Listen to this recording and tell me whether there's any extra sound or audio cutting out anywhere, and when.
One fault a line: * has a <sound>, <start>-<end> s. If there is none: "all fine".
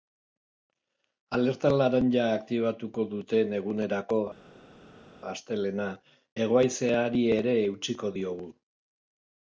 all fine